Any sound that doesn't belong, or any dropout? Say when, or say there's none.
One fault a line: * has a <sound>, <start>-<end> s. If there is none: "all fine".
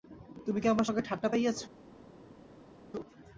all fine